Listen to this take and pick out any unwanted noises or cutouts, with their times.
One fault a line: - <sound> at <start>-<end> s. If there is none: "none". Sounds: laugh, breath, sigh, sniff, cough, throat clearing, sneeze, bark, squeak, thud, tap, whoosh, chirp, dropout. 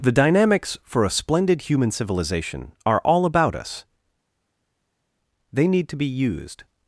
none